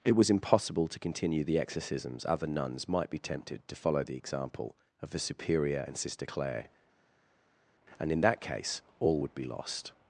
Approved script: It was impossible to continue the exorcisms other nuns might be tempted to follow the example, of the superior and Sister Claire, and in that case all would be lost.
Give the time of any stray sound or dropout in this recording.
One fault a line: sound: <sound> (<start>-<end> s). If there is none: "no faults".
no faults